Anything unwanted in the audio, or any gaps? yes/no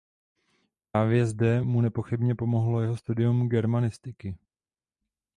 no